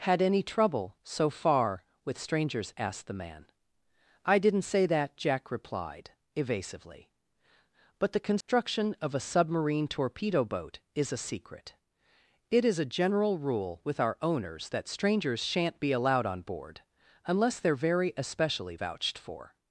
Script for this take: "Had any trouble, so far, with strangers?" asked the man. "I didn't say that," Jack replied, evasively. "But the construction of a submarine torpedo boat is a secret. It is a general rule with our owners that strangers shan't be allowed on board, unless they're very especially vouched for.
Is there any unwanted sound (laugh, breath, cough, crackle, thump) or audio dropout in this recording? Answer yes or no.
yes